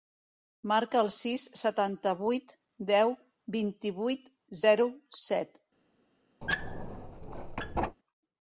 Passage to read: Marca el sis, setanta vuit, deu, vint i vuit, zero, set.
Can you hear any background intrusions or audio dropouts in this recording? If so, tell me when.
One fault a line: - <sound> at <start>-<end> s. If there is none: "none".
- squeak at 6.4-8.0 s